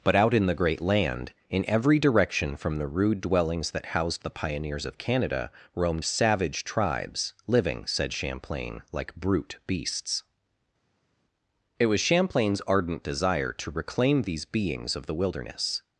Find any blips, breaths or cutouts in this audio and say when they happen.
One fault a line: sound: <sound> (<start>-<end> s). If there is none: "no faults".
no faults